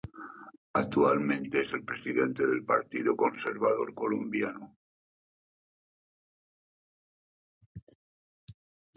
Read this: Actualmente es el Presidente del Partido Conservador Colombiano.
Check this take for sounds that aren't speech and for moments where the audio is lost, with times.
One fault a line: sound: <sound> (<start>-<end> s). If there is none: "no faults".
no faults